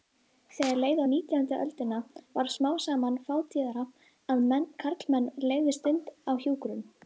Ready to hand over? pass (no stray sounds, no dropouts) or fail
pass